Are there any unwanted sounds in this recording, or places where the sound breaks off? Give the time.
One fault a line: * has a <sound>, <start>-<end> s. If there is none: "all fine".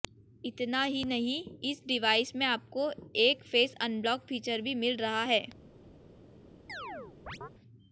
* has a chirp, 6.7-7.5 s